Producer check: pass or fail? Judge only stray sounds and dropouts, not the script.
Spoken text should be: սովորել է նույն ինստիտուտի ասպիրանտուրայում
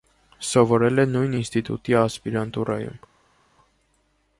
pass